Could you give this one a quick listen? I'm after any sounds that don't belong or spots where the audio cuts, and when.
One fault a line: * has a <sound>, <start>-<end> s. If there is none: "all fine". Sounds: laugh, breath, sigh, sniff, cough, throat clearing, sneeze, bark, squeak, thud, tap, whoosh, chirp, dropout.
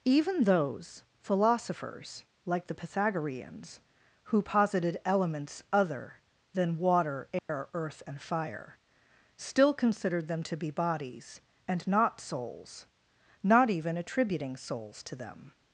* has a dropout, 7.4-7.5 s